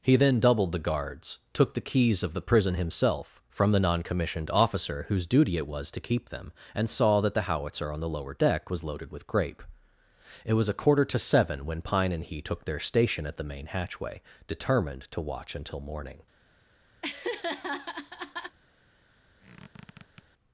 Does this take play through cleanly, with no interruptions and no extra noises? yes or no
no